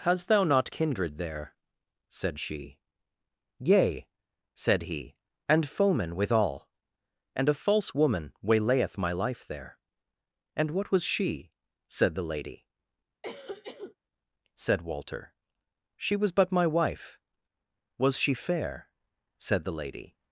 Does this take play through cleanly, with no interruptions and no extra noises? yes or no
no